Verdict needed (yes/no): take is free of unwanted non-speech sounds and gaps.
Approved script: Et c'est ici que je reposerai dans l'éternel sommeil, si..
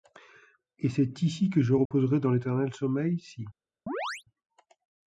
no